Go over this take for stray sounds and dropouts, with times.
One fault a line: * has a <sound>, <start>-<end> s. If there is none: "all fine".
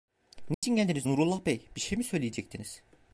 * has a dropout, 0.5-0.6 s